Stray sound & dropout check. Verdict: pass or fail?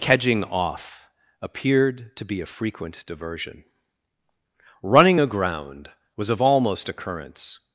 pass